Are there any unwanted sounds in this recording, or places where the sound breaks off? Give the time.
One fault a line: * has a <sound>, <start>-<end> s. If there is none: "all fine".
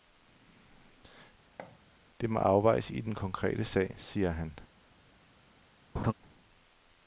* has a thud, 1.6-1.8 s
* has a laugh, 5.9-6.1 s